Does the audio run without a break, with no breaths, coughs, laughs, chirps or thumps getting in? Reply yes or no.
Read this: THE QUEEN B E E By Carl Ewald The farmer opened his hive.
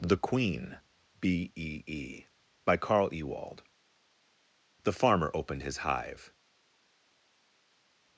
yes